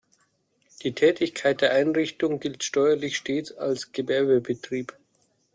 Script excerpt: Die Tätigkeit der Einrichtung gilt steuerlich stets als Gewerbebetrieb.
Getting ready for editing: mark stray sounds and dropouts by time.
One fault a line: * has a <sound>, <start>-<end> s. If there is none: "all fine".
all fine